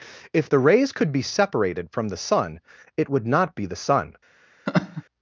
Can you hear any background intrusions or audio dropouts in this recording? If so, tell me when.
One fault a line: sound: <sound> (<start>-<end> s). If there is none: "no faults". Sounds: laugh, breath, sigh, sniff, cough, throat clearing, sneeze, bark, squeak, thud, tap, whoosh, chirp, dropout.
sound: laugh (4.7-5.0 s)